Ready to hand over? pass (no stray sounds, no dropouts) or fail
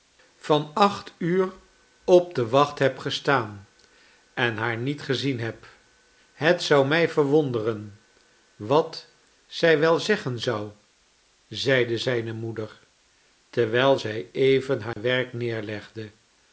fail